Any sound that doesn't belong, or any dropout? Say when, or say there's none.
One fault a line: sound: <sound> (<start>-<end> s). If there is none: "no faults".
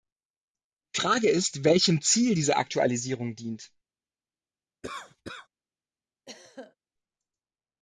sound: cough (4.8-5.5 s)
sound: throat clearing (6.3-6.8 s)